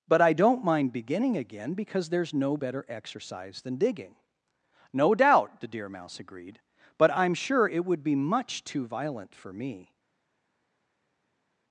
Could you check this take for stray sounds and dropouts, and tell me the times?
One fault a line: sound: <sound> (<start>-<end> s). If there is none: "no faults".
no faults